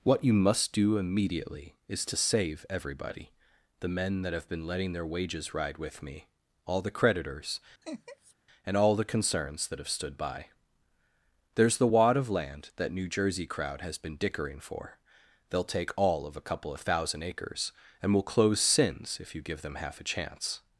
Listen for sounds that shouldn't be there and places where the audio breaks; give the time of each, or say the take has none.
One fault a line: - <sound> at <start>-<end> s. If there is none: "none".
- laugh at 7.8-8.3 s